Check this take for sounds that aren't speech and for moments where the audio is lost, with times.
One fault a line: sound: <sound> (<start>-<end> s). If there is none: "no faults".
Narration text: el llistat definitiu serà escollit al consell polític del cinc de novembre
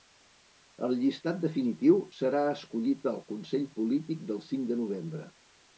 no faults